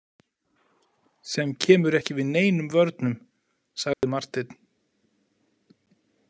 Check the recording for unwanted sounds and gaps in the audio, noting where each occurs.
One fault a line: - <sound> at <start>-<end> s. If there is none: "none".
- dropout at 3.9-4.0 s